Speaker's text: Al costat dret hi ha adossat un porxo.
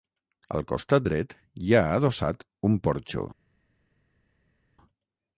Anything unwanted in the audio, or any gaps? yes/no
no